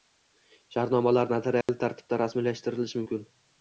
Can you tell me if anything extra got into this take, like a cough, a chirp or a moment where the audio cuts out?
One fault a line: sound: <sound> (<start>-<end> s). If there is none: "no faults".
sound: dropout (1.6-1.7 s)